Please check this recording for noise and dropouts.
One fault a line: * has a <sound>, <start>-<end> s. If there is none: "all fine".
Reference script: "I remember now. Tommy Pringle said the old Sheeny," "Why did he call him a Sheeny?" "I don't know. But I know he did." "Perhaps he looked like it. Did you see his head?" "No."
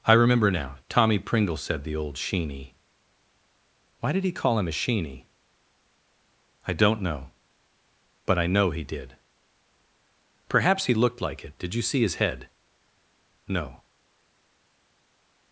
all fine